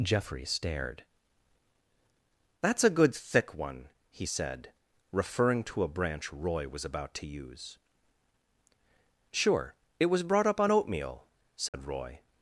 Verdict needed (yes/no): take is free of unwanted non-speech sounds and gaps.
no